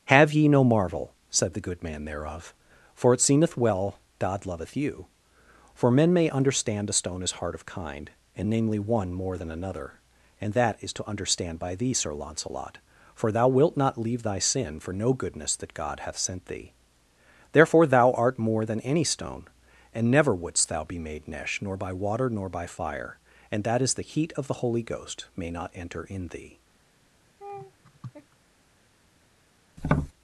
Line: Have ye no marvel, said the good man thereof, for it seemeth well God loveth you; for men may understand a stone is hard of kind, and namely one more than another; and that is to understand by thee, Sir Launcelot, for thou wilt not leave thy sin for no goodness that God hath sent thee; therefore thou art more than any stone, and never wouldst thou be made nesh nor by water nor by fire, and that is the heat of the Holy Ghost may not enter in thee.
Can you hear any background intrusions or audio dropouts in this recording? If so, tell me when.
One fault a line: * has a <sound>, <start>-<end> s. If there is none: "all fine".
* has a laugh, 27.4-28.4 s
* has a tap, 29.8-30.1 s